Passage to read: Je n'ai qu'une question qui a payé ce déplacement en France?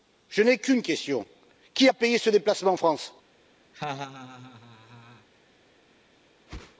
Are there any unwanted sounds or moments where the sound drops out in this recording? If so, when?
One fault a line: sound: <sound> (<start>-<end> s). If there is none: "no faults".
sound: laugh (3.7-5.3 s)
sound: whoosh (6.5-6.8 s)